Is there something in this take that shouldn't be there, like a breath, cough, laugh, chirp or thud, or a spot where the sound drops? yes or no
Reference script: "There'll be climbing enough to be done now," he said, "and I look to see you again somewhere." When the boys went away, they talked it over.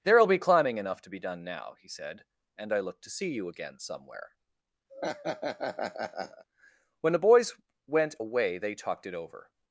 yes